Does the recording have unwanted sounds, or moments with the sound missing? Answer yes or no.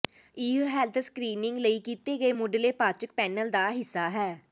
no